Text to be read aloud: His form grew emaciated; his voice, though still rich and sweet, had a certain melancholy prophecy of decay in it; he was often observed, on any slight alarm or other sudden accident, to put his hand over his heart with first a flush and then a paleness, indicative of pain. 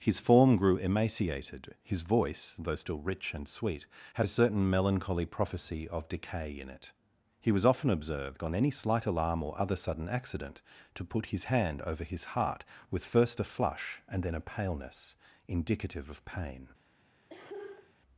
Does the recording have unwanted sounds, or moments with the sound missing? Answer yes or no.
yes